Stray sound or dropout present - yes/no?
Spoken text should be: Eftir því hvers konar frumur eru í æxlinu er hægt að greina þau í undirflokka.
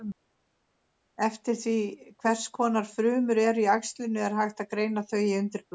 no